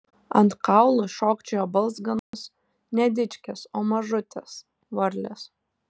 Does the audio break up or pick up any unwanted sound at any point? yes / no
yes